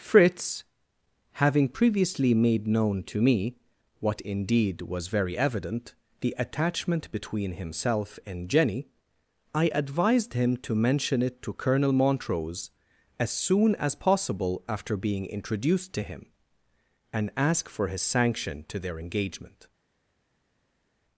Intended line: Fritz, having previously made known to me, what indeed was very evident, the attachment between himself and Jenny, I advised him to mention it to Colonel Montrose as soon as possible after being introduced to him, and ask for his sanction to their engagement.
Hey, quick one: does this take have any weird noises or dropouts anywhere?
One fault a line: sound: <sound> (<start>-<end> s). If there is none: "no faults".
no faults